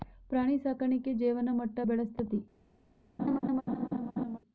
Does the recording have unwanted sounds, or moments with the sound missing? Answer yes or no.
yes